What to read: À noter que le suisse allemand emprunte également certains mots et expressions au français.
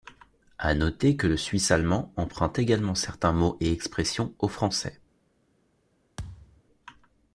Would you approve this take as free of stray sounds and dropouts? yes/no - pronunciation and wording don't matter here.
no